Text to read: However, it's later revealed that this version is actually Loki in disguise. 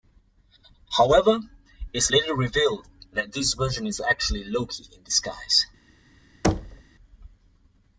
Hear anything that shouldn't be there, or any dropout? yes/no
yes